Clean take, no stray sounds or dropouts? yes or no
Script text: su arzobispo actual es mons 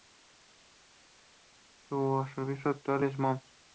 yes